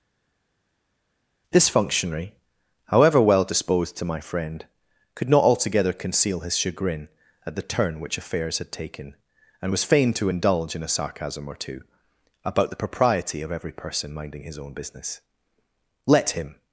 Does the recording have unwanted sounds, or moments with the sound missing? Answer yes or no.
no